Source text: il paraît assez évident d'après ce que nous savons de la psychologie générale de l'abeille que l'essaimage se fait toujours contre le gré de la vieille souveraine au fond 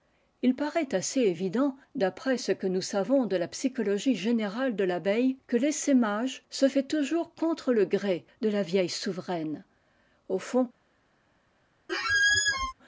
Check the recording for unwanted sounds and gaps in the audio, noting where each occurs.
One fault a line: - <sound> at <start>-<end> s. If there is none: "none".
- squeak at 11.9-12.7 s